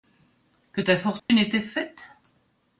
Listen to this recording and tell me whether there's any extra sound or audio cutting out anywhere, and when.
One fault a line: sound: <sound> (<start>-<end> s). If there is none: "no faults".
sound: dropout (1.2-1.3 s)